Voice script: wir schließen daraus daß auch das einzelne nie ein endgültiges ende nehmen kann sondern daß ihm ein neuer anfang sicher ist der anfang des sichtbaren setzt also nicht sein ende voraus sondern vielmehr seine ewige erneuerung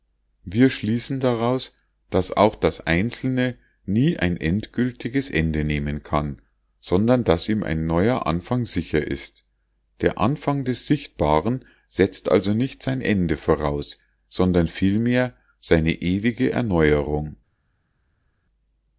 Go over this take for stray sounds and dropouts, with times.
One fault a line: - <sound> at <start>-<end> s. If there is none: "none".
none